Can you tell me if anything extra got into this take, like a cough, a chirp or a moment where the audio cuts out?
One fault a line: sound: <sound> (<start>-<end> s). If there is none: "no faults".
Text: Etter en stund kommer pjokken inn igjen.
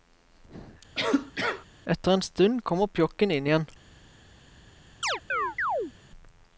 sound: cough (1.0-1.7 s)
sound: chirp (5.0-5.9 s)